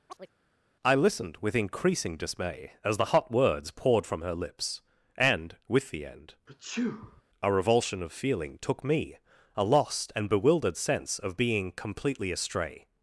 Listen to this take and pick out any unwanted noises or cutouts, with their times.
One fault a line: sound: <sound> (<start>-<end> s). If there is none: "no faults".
sound: chirp (0.1-0.3 s)
sound: sneeze (6.5-7.2 s)